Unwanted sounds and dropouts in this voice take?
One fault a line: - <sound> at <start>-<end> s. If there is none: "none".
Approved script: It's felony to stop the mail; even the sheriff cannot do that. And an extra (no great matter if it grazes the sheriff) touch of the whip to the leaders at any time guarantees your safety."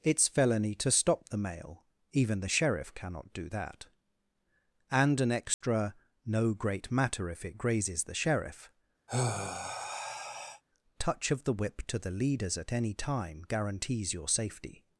- dropout at 5.5-5.6 s
- sigh at 9.1-10.6 s